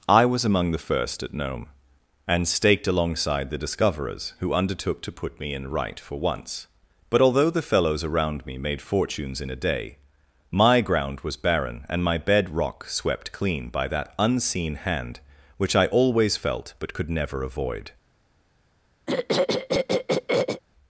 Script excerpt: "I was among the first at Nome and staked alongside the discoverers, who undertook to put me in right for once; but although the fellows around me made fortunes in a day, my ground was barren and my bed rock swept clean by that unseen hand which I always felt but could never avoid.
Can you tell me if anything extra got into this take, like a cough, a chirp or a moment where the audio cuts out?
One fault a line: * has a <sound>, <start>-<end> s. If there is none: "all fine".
* has a throat clearing, 19.1-20.6 s